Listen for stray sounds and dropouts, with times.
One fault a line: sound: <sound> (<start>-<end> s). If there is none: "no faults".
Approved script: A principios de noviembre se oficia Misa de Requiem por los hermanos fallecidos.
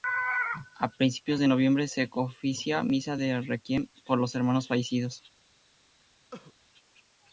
sound: cough (6.3-6.5 s)